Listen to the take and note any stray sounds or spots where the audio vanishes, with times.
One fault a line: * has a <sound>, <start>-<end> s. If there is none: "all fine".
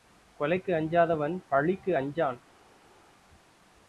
all fine